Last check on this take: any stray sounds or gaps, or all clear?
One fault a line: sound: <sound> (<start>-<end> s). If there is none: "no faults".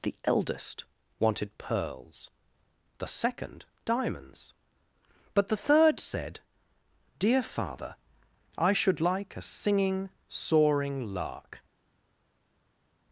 no faults